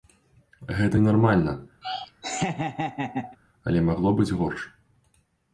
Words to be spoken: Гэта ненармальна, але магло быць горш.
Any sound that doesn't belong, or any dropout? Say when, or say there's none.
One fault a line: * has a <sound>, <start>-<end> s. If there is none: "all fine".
* has a laugh, 1.8-3.4 s